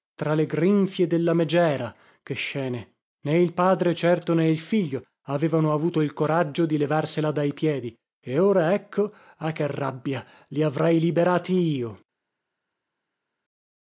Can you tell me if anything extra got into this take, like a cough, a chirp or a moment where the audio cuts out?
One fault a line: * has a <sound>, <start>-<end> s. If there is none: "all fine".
all fine